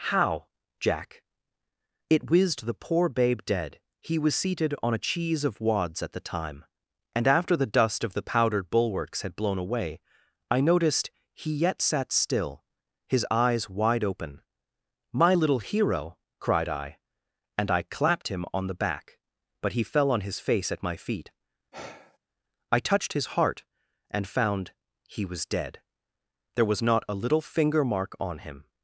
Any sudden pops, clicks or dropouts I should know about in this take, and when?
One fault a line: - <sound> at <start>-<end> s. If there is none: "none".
- sigh at 21.7-22.2 s